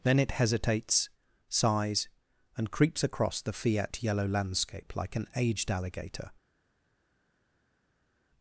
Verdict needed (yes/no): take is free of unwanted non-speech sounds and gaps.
yes